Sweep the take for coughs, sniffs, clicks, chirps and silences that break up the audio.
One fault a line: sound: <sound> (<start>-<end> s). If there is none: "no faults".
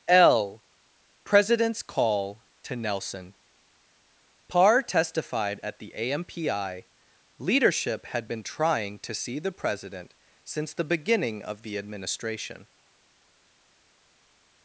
no faults